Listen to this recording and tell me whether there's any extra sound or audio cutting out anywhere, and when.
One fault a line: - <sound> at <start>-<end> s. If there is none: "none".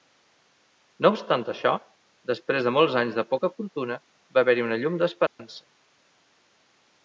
- dropout at 5.3-5.4 s